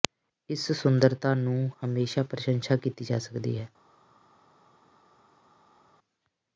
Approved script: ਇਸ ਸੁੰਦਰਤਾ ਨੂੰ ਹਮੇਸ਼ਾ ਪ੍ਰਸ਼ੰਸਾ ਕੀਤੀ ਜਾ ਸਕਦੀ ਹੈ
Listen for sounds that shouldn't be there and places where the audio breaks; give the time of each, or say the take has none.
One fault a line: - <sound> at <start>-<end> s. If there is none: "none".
none